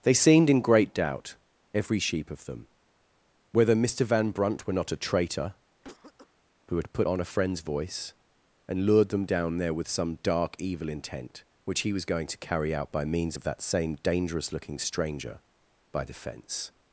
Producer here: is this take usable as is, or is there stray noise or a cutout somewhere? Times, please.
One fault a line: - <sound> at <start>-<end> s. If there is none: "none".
- cough at 5.8-6.3 s